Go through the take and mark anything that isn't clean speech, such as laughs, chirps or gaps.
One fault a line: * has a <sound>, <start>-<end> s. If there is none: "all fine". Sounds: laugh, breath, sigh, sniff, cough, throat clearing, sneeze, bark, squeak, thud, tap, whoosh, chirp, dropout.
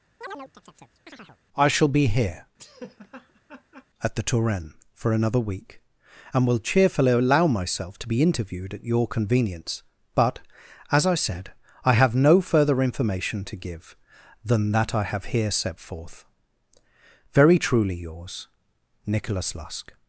* has a chirp, 0.2-1.4 s
* has a laugh, 2.6-3.9 s